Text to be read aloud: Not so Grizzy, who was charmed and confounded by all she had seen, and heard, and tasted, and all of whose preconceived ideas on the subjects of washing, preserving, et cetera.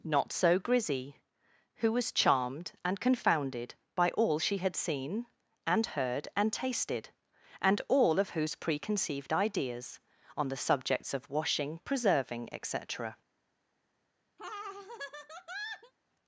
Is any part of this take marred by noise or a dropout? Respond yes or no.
yes